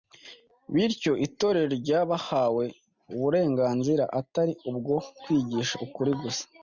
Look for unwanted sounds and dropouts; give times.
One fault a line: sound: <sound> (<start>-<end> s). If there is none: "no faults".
no faults